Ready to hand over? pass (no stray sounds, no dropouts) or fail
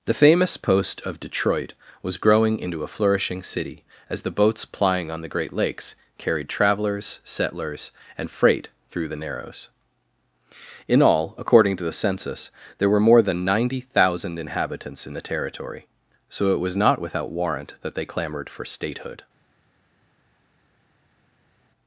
pass